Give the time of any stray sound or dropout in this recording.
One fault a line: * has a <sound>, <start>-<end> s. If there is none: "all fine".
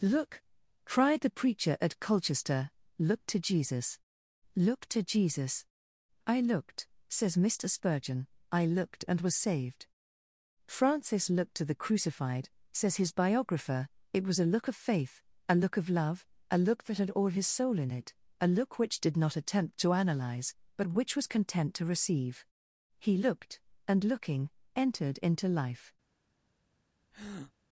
* has a breath, 27.1-27.5 s